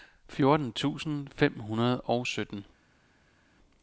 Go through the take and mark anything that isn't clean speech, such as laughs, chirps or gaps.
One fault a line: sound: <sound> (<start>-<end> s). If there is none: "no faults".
no faults